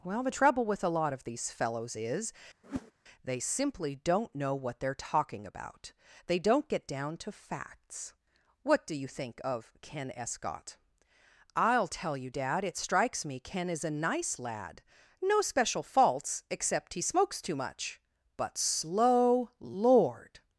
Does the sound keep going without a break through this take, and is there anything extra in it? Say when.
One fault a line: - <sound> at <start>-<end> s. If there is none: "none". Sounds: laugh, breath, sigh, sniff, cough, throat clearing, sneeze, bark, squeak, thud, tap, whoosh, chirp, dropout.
- whoosh at 2.6-2.9 s